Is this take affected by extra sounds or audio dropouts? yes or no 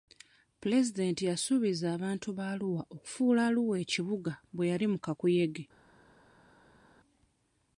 no